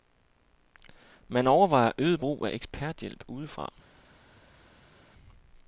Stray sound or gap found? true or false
false